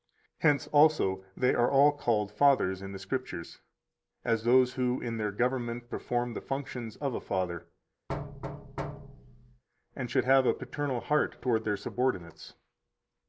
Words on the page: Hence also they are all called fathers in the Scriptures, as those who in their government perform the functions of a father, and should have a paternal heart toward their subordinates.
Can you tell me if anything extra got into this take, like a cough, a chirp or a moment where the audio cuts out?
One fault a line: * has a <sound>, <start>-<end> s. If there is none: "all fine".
* has a thud, 8.1-9.6 s